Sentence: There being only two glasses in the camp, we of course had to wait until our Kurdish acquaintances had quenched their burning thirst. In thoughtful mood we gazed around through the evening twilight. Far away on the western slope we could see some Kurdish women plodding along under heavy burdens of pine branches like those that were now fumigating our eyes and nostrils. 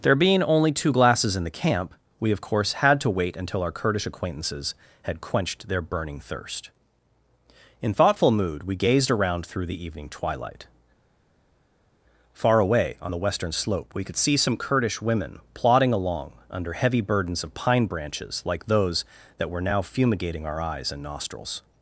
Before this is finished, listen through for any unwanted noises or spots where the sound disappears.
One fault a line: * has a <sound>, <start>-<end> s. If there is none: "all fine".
all fine